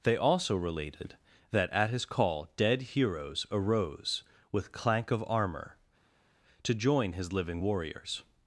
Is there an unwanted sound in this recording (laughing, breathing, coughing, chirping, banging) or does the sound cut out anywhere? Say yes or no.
no